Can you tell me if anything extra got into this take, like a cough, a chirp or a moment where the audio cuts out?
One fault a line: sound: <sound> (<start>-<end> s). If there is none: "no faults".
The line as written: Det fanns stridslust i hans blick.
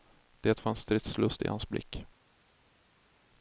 no faults